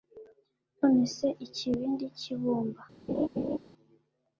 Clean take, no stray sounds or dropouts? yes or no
no